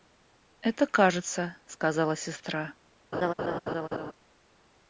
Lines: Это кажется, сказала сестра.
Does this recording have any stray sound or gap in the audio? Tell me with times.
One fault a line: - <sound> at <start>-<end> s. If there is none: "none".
- laugh at 3.1-4.1 s